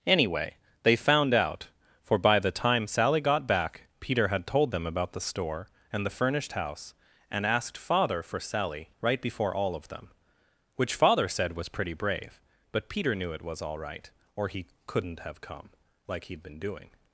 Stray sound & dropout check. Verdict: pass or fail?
pass